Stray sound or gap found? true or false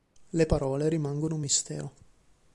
false